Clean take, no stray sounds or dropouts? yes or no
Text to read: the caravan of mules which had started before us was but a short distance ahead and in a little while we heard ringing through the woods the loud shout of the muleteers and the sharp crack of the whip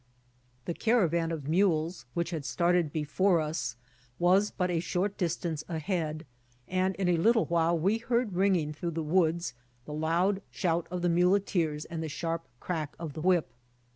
yes